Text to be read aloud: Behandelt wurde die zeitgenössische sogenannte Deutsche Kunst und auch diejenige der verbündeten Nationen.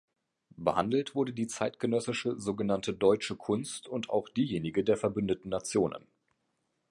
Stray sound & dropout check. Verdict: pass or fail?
pass